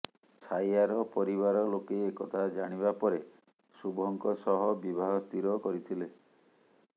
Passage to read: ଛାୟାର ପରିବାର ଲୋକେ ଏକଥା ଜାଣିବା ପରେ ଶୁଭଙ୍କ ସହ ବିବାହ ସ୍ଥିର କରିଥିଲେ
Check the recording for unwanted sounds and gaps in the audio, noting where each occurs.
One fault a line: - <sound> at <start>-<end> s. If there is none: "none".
none